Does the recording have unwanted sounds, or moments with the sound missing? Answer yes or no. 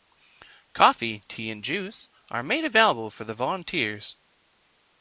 no